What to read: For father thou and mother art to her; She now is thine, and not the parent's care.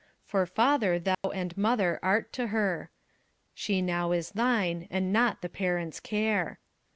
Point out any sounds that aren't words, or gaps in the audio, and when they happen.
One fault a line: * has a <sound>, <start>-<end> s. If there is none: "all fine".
* has a dropout, 1.1-1.2 s